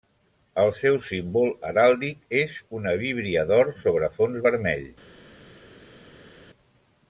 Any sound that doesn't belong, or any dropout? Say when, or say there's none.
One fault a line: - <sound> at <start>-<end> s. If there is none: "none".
none